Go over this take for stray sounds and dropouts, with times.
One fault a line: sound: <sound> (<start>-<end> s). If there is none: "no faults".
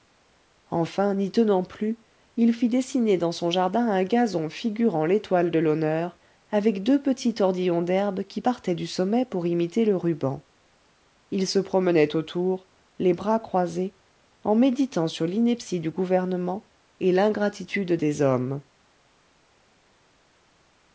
no faults